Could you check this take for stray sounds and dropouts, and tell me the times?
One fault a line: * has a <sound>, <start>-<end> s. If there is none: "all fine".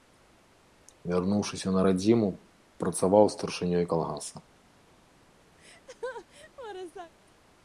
* has a laugh, 5.6-7.1 s